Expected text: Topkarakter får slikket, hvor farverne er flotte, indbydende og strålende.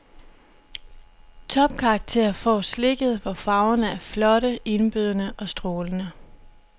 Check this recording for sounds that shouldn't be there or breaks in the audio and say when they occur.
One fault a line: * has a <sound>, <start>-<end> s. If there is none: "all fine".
all fine